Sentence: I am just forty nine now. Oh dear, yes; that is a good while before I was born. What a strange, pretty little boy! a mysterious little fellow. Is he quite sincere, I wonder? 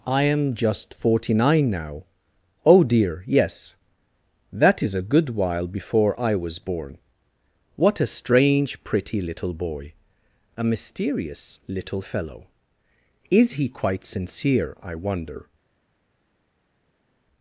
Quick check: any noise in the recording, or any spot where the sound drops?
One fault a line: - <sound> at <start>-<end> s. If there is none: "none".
none